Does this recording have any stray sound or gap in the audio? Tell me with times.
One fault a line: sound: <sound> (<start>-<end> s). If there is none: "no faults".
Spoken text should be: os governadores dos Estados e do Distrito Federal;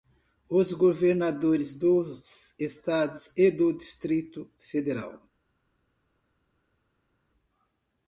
no faults